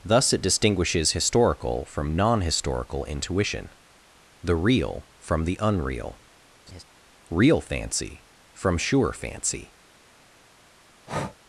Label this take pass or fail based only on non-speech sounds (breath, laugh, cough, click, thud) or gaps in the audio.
fail